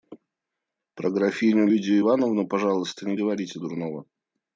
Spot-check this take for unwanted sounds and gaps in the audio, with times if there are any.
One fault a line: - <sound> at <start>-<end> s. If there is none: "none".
none